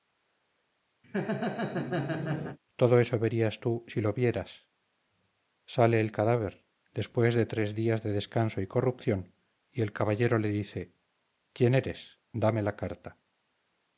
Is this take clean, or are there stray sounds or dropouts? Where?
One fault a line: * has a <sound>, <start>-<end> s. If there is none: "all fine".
* has a laugh, 1.0-2.6 s